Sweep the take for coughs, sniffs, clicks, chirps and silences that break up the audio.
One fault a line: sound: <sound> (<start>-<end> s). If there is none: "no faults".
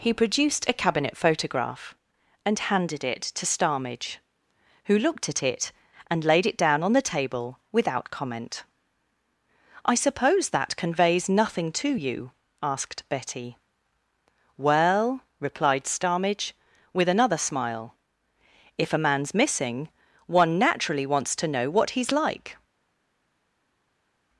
no faults